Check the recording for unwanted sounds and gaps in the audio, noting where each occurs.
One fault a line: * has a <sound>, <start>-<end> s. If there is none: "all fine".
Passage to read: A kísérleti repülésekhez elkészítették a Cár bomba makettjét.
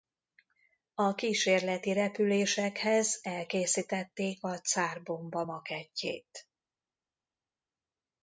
all fine